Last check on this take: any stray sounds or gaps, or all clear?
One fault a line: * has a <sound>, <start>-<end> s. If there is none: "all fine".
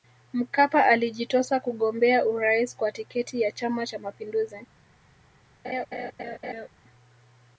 * has a laugh, 5.6-6.7 s